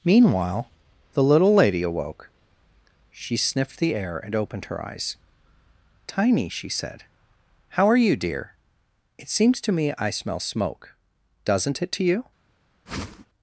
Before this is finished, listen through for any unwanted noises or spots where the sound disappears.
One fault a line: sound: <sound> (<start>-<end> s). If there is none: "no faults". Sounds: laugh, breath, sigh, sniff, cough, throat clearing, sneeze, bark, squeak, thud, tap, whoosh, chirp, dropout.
sound: whoosh (12.9-13.3 s)